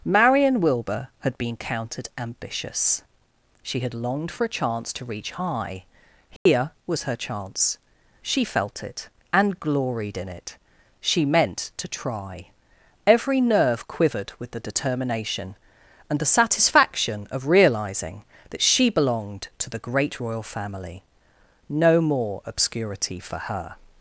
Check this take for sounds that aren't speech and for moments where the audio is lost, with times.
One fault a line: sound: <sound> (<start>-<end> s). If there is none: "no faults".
sound: dropout (6.4-6.5 s)